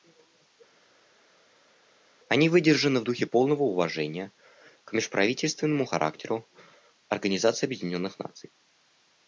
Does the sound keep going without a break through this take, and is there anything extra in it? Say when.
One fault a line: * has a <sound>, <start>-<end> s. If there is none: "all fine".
all fine